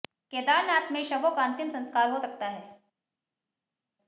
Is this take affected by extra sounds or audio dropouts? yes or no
no